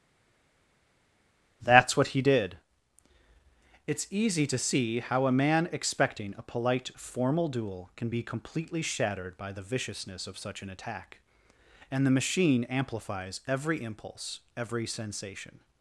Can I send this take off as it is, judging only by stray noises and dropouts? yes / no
yes